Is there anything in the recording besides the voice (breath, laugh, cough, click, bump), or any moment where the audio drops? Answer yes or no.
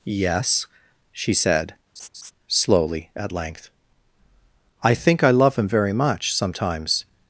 yes